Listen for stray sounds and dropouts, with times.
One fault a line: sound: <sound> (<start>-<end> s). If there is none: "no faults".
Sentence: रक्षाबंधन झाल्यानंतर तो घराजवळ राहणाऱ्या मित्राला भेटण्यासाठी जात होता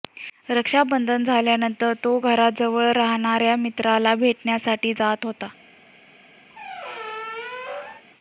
sound: squeak (6.5-8.0 s)